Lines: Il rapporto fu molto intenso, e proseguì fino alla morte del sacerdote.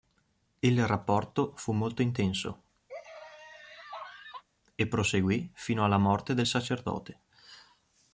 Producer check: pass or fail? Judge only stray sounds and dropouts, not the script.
fail